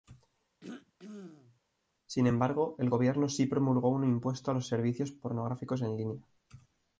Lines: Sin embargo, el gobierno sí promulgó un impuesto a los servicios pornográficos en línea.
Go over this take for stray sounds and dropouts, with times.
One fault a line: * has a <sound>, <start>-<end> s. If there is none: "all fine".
* has a throat clearing, 0.6-1.6 s